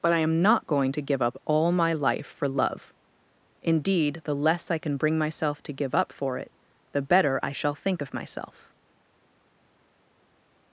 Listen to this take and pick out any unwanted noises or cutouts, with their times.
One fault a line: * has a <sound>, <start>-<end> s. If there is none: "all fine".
all fine